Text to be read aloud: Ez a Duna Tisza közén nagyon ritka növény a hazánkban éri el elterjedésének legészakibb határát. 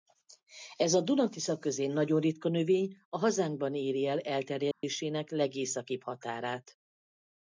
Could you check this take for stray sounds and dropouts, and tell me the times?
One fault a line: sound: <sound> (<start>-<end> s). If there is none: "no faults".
sound: dropout (4.7-4.8 s)